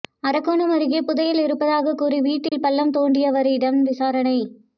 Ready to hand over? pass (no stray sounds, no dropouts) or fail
fail